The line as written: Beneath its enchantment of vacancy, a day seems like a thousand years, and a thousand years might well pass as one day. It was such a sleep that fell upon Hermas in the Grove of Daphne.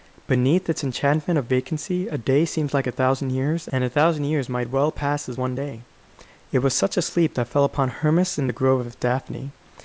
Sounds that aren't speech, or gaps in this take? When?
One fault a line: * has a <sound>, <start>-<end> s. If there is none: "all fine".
all fine